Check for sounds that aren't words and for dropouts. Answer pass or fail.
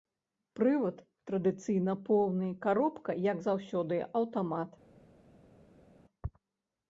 pass